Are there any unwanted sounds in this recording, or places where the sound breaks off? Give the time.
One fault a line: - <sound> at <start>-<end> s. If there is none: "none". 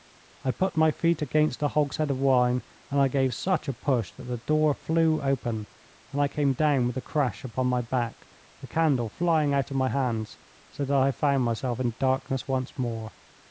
none